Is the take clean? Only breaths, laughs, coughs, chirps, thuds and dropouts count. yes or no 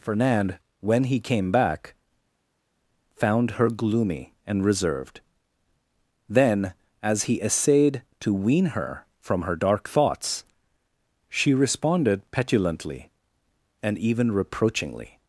yes